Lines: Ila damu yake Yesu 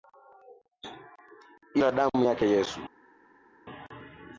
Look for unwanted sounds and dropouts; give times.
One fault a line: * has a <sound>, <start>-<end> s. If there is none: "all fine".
all fine